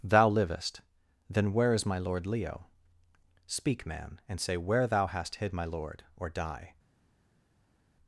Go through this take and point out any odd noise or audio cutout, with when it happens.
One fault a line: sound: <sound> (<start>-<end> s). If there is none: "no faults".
no faults